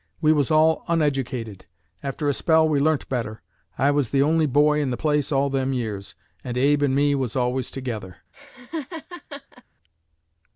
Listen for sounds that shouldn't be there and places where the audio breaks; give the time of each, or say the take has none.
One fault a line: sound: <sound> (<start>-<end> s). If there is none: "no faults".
sound: laugh (8.3-9.6 s)